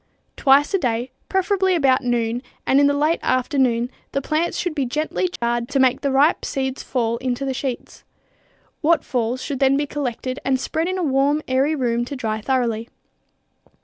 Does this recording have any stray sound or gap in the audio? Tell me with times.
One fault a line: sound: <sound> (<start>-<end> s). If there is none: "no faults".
sound: dropout (5.4-5.4 s)